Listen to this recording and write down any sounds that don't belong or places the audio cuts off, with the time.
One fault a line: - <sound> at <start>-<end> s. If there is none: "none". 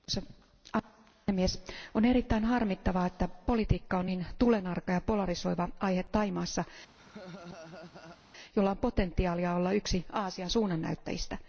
- laugh at 7.0-8.2 s